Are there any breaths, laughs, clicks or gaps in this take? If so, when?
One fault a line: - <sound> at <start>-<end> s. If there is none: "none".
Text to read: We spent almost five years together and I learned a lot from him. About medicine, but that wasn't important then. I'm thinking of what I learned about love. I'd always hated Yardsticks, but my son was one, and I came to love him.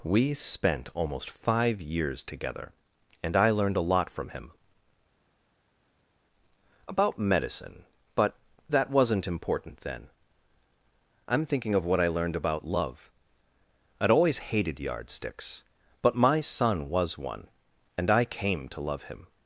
none